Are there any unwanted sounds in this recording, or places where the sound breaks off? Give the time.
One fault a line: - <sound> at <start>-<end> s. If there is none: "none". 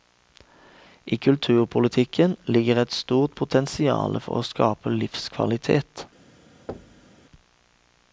- thud at 6.7-7.1 s